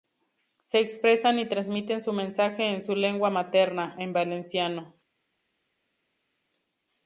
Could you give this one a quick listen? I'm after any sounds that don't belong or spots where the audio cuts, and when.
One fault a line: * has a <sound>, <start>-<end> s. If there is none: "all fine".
all fine